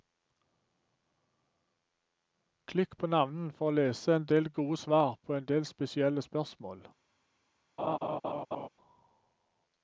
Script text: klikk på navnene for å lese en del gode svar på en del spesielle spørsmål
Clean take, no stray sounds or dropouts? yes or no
no